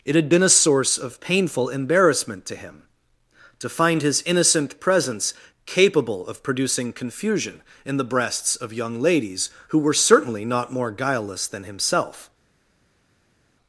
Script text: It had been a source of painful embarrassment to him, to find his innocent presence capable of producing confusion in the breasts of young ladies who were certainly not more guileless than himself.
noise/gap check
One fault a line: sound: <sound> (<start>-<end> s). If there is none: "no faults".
no faults